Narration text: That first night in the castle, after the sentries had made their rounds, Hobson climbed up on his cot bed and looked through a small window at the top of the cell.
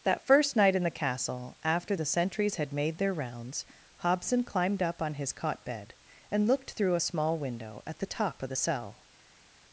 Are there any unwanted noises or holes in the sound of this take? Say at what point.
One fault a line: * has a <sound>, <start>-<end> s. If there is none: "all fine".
all fine